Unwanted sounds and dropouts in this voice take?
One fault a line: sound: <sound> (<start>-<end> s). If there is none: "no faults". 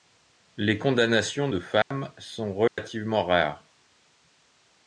sound: dropout (1.8-1.9 s)
sound: dropout (2.7-2.8 s)